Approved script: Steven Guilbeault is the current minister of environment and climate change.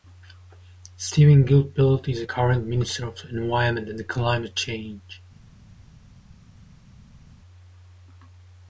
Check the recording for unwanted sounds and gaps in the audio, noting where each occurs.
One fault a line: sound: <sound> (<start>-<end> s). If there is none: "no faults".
no faults